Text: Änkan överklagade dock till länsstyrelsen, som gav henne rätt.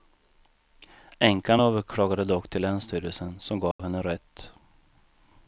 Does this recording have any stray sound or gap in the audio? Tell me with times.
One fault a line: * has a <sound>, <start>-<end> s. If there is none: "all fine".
* has a dropout, 3.7-3.8 s